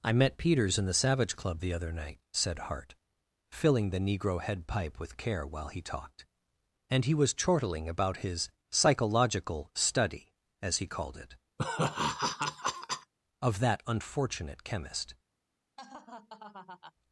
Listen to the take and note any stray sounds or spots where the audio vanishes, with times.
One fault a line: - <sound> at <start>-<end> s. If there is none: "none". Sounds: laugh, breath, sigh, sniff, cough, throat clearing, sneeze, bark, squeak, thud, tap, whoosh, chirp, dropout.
- laugh at 11.6-13.1 s
- laugh at 15.8-16.9 s